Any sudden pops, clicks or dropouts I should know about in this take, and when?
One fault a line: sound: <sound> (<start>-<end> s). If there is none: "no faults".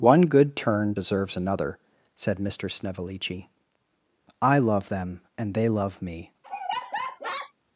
sound: laugh (6.4-7.5 s)